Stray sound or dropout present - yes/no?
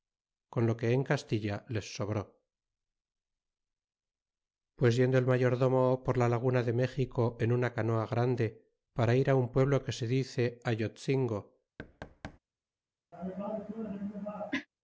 yes